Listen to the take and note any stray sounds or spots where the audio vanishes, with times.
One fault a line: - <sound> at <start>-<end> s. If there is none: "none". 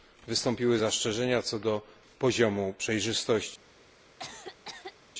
- cough at 4.2-5.0 s